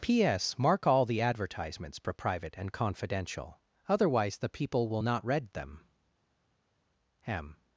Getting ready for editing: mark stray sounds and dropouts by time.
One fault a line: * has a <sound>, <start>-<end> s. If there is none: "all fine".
all fine